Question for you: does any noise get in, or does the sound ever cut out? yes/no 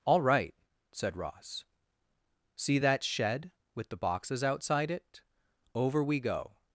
no